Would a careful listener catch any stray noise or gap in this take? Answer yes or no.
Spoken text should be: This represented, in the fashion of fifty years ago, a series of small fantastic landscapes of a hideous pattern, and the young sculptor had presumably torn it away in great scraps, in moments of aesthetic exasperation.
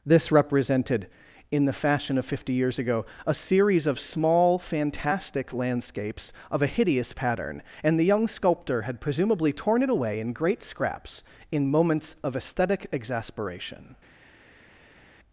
no